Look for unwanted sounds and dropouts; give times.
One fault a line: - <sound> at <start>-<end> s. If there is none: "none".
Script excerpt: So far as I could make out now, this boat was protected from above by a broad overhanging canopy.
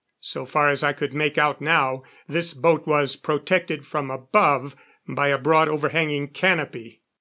none